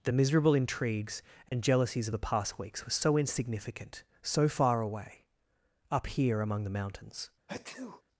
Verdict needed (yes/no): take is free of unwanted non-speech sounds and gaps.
no